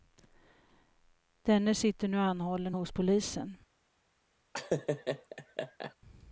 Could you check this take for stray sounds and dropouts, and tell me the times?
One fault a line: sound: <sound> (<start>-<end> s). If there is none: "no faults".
sound: laugh (4.5-6.0 s)